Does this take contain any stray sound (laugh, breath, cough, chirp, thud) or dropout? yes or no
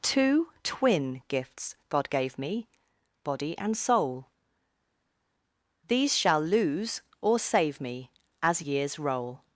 no